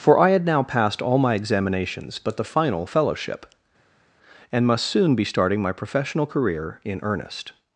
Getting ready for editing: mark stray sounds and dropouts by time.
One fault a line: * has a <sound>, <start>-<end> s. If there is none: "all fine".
all fine